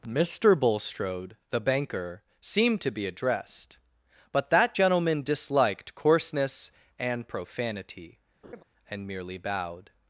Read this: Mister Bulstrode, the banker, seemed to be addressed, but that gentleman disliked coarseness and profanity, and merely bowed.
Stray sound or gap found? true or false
true